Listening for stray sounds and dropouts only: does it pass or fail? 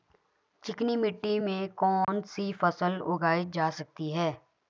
fail